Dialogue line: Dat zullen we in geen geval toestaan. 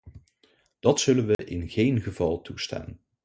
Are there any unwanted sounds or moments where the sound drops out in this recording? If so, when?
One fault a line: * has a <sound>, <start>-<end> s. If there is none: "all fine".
* has a dropout, 1.3-1.4 s